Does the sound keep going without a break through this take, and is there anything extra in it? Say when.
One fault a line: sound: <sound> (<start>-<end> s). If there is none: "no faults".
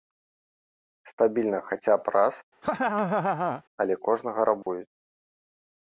sound: laugh (2.6-3.6 s)
sound: dropout (4.6-4.7 s)